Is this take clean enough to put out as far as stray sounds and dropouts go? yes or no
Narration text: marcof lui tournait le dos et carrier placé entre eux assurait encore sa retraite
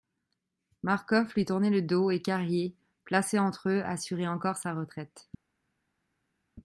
yes